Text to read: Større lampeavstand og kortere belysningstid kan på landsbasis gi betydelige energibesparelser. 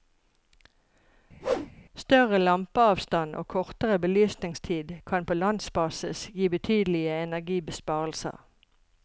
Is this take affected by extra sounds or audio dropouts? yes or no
yes